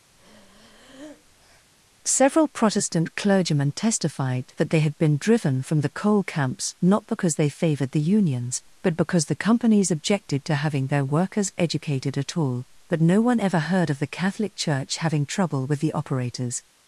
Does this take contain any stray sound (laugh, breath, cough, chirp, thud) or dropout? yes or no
yes